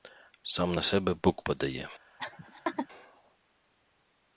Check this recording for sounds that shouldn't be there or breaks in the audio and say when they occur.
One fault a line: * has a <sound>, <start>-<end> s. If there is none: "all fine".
* has a laugh, 2.2-2.9 s